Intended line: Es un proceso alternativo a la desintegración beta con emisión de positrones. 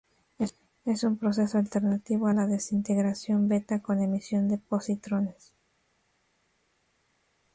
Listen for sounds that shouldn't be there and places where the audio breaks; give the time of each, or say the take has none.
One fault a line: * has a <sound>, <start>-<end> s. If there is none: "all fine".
all fine